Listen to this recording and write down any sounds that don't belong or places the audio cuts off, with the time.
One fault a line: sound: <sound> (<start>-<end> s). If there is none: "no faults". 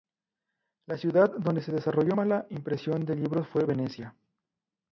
no faults